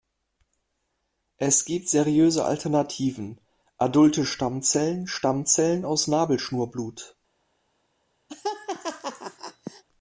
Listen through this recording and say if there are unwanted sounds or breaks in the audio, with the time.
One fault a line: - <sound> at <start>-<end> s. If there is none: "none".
- laugh at 8.3-9.8 s